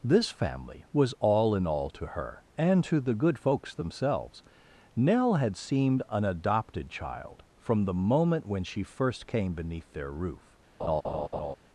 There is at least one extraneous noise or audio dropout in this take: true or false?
true